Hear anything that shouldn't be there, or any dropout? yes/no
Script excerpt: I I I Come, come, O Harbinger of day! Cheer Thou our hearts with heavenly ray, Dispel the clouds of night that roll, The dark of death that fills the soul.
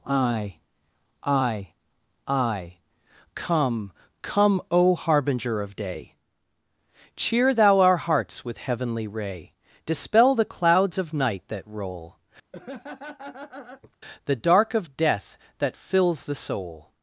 yes